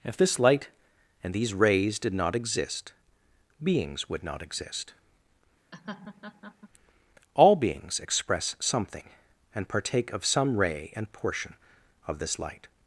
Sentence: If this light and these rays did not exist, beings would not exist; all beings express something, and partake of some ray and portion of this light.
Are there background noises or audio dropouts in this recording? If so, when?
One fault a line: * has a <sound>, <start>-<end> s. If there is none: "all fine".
* has a laugh, 5.7-6.7 s